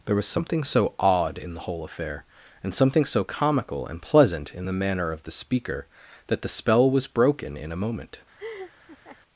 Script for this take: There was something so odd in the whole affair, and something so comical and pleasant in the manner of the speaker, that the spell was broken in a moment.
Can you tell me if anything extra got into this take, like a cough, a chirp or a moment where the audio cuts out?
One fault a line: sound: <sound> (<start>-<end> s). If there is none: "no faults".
sound: laugh (8.4-9.2 s)